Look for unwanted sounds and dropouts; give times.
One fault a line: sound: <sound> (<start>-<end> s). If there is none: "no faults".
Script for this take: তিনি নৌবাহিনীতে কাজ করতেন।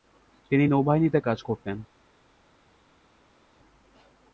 no faults